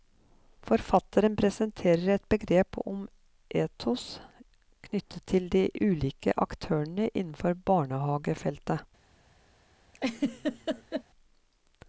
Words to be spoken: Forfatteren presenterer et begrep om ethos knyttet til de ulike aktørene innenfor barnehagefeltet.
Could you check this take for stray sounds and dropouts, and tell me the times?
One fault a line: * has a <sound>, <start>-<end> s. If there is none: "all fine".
* has a laugh, 9.9-11.0 s